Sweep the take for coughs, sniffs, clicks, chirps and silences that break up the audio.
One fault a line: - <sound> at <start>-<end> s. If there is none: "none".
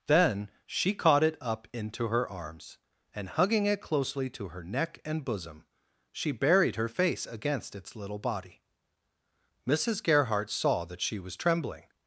none